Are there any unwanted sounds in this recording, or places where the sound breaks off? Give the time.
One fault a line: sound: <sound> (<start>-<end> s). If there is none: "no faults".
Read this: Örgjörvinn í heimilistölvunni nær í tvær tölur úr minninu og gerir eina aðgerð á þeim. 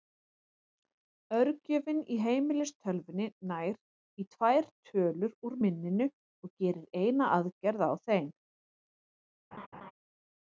sound: laugh (9.5-9.9 s)